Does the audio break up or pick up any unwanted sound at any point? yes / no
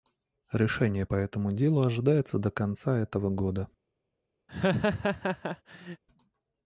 yes